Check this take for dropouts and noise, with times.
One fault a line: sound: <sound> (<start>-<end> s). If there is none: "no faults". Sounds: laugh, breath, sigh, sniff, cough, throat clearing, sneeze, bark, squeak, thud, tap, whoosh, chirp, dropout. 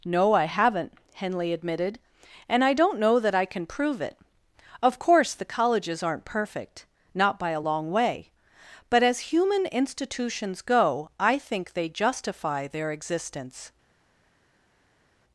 no faults